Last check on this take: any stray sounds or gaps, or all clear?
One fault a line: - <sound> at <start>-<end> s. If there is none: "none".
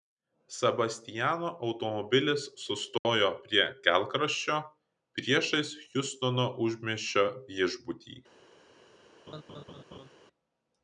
- dropout at 3.0-3.0 s
- laugh at 9.3-10.1 s